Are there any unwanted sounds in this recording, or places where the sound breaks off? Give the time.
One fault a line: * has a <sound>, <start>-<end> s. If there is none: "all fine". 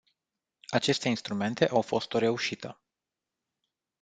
all fine